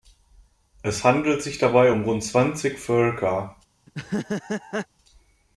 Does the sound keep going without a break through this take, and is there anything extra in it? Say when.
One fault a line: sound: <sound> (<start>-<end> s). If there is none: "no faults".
sound: laugh (3.9-4.9 s)